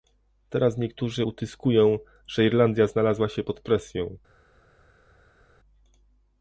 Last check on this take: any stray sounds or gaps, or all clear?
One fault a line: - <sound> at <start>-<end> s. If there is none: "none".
none